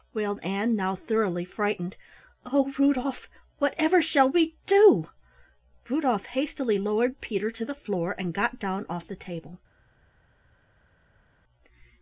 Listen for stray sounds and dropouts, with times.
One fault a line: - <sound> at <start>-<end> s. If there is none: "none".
none